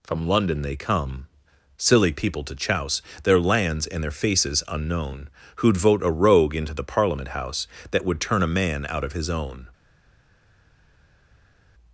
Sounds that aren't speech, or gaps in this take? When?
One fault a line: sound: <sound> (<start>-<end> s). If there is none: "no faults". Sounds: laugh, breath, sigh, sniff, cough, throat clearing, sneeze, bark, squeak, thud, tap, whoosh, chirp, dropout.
no faults